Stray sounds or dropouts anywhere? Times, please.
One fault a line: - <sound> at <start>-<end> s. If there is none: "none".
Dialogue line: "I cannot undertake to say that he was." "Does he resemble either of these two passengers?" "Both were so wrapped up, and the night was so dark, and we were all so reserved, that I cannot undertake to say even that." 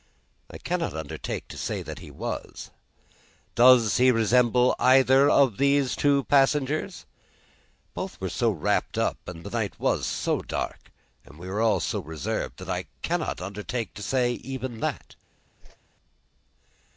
- whoosh at 15.6-15.8 s